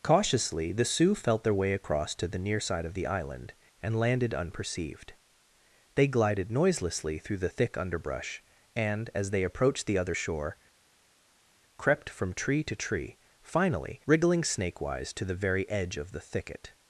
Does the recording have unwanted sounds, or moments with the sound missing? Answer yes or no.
no